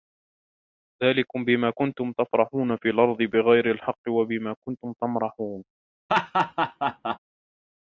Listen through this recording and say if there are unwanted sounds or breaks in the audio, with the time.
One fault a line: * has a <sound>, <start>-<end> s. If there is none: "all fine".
* has a laugh, 6.1-7.2 s